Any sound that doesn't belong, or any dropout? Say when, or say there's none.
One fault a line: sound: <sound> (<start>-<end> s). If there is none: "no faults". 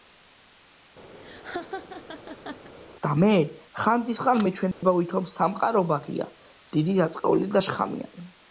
sound: laugh (1.2-2.7 s)
sound: dropout (4.7-4.8 s)